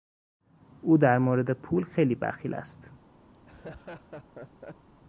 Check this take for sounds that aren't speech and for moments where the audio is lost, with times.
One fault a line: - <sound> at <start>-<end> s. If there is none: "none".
- laugh at 3.3-4.9 s